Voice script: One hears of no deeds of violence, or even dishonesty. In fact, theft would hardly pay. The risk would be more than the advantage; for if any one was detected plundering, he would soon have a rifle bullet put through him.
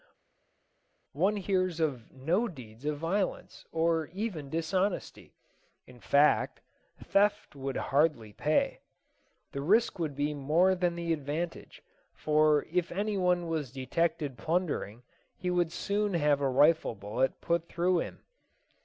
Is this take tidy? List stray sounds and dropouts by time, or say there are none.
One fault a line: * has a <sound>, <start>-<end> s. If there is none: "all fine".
all fine